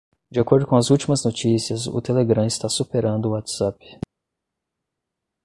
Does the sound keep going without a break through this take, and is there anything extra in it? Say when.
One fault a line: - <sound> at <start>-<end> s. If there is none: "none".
none